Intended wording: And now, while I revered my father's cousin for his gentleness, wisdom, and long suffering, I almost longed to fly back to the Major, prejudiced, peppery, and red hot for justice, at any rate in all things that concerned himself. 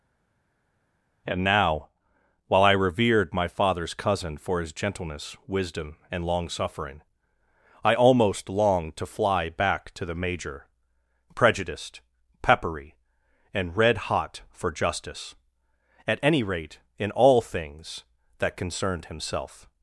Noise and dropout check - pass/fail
pass